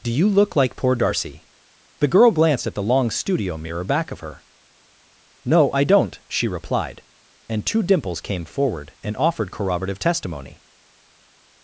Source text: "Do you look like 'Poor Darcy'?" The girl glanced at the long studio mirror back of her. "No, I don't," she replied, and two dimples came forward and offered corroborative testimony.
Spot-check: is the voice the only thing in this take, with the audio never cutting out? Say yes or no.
yes